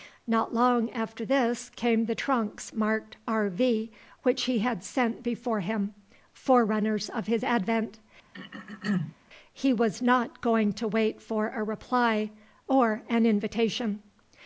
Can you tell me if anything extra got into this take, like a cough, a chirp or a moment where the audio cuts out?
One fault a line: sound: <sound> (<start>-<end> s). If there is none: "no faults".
sound: throat clearing (8.3-9.2 s)